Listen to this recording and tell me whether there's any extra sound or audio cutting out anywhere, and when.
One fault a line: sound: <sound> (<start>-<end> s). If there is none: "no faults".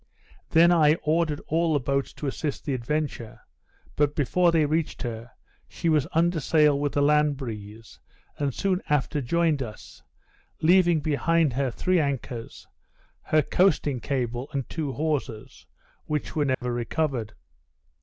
sound: dropout (16.5-16.6 s)